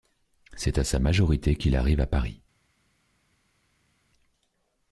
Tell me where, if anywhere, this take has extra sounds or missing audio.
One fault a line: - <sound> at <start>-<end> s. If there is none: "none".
none